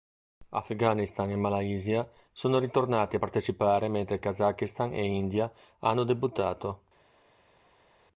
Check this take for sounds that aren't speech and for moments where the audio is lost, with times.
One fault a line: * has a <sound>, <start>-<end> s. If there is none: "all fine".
all fine